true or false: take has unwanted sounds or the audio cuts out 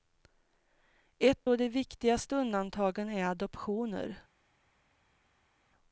false